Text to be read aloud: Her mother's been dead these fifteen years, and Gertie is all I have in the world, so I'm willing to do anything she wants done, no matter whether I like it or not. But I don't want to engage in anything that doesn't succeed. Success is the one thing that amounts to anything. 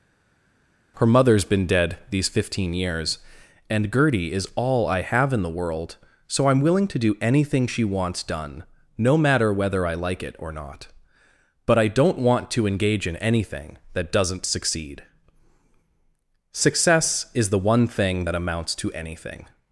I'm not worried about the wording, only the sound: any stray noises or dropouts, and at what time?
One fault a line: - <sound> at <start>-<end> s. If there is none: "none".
none